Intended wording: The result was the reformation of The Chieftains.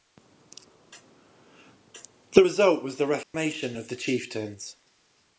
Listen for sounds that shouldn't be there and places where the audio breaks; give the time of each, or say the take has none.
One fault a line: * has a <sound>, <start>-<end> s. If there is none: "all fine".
* has a dropout, 3.2-3.3 s